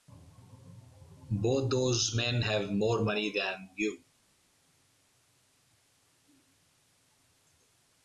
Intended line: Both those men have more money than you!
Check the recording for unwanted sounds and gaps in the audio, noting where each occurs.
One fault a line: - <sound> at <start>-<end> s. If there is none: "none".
none